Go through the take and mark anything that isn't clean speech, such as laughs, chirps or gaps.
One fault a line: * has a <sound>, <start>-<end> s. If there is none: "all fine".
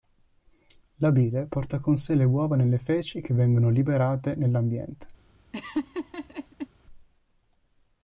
* has a laugh, 5.5-6.7 s